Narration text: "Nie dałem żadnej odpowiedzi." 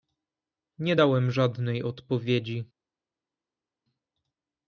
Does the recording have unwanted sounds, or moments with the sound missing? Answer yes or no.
no